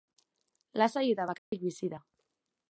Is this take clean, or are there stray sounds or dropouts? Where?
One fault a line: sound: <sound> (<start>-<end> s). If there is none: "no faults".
sound: dropout (1.4-1.5 s)